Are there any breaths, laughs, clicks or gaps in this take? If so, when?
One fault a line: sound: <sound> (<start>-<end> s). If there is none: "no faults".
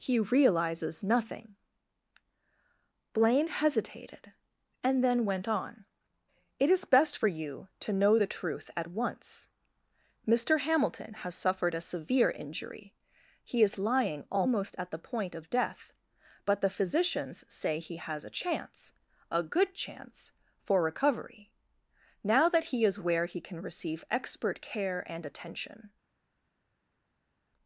no faults